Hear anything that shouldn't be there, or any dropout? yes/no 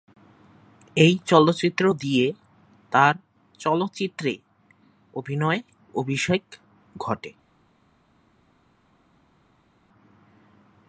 no